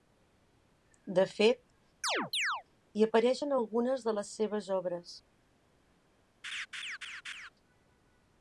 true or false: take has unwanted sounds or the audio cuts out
true